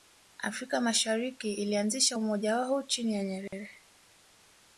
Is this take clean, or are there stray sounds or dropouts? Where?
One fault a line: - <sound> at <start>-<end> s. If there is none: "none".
- dropout at 3.5-3.5 s